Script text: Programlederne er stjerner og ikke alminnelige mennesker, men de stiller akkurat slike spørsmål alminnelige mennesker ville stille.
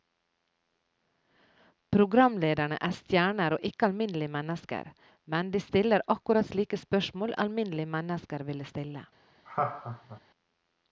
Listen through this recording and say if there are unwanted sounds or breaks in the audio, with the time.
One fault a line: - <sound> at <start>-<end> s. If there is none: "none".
- laugh at 9.5-10.2 s